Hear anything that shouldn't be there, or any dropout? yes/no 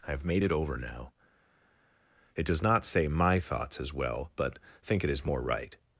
no